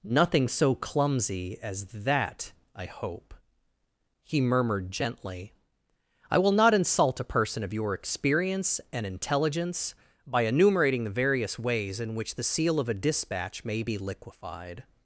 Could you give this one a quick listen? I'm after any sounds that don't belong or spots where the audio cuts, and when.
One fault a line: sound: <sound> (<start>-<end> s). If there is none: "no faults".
no faults